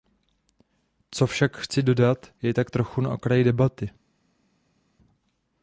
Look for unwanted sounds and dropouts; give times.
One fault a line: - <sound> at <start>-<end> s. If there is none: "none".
none